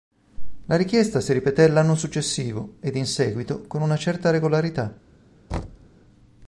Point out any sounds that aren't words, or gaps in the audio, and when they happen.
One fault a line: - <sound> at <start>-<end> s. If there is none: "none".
- thud at 5.5-5.9 s